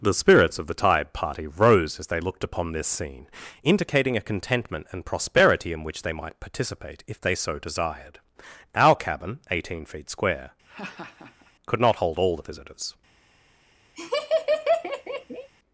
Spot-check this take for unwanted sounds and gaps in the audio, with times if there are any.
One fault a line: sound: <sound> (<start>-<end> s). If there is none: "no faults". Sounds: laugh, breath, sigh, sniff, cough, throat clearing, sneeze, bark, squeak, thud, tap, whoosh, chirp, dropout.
sound: laugh (10.7-11.5 s)
sound: laugh (14.0-15.5 s)